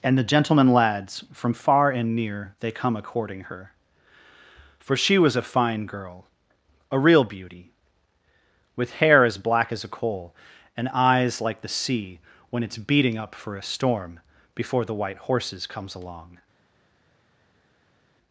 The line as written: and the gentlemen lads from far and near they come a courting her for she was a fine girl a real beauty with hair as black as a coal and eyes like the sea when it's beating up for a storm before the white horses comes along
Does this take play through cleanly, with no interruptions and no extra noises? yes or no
yes